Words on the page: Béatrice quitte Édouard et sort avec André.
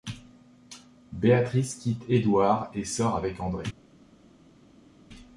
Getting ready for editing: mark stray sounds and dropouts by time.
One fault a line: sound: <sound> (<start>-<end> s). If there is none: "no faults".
no faults